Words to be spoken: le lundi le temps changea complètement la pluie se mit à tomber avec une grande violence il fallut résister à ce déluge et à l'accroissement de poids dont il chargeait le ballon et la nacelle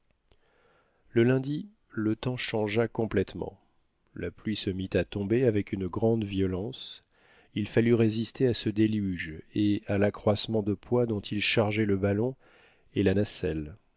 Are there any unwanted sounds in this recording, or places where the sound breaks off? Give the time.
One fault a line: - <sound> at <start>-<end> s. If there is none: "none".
none